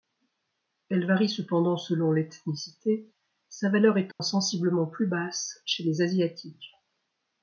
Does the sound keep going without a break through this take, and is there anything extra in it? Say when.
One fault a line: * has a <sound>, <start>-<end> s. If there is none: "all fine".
* has a dropout, 4.1-4.2 s